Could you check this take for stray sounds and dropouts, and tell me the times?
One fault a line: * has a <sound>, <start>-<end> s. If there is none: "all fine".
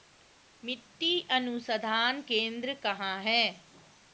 all fine